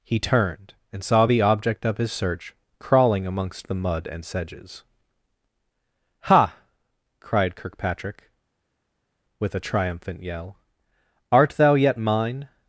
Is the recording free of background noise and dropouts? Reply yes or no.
yes